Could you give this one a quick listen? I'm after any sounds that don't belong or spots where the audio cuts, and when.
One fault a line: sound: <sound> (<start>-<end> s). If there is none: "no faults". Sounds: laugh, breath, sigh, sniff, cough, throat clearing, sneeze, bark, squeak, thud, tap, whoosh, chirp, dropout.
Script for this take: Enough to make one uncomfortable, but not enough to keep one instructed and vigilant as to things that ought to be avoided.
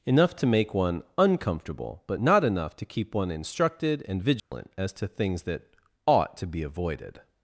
sound: dropout (4.4-4.5 s)